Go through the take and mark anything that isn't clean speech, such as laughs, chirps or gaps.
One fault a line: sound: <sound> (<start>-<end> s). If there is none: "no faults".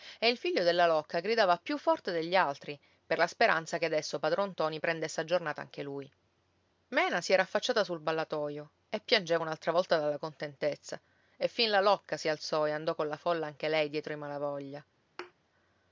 sound: thud (15.2-15.3 s)